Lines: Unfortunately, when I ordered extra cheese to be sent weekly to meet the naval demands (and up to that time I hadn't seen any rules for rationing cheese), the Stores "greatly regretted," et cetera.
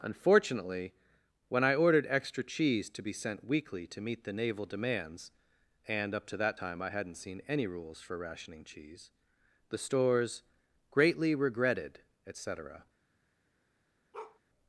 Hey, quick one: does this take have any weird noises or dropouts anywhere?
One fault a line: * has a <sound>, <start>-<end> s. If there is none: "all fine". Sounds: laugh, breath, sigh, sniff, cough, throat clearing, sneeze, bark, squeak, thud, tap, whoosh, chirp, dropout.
* has a bark, 14.1-14.4 s